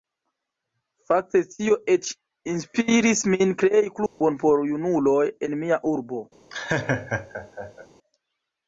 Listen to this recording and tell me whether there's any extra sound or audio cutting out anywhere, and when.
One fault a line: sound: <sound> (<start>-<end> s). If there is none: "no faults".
sound: dropout (4.1-4.2 s)
sound: laugh (6.5-7.9 s)